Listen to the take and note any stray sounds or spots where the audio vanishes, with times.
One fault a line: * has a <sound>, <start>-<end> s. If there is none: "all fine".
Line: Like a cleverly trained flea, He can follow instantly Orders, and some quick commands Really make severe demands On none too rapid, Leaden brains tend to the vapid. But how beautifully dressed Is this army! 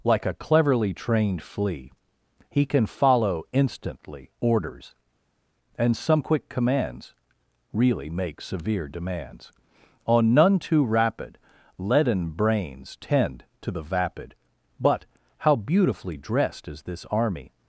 all fine